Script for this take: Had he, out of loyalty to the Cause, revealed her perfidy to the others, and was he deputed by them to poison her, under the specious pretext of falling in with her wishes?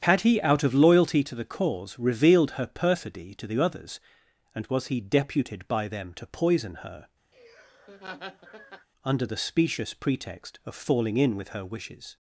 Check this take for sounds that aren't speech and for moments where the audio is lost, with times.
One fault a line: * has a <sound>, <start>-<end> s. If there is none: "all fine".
* has a laugh, 7.3-8.9 s